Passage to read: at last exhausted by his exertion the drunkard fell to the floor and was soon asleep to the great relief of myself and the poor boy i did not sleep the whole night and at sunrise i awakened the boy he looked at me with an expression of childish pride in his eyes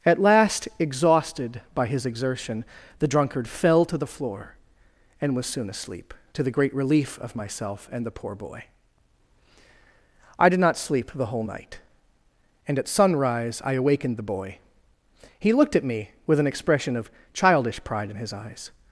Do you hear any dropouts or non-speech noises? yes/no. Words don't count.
no